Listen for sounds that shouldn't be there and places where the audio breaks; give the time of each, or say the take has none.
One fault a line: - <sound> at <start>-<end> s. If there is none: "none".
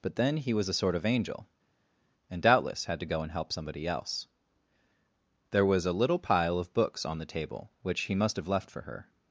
none